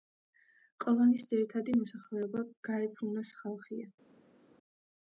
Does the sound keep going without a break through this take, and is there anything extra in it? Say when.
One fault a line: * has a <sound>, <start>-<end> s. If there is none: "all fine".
all fine